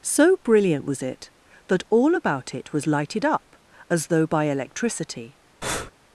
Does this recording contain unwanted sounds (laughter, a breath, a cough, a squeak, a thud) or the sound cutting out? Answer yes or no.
yes